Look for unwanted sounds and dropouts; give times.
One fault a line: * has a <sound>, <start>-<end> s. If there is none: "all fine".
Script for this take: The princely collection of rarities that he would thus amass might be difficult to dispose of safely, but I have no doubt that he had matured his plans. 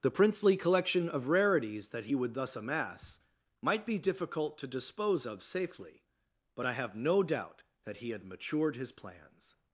all fine